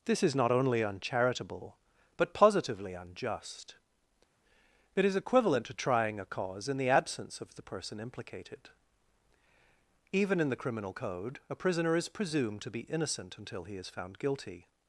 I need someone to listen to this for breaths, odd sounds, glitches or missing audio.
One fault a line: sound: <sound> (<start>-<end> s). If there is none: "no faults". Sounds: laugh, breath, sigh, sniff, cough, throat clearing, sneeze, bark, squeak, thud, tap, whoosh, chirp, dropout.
no faults